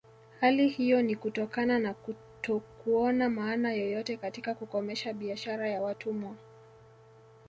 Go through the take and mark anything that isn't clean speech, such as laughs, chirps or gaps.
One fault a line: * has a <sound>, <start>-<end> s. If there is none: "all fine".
all fine